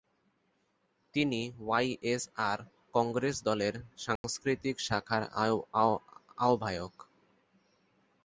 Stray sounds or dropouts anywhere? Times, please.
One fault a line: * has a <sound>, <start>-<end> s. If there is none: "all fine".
* has a dropout, 4.2-4.2 s